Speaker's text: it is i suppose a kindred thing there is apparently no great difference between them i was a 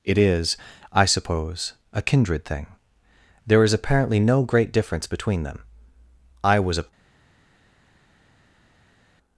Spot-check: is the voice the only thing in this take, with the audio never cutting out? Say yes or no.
yes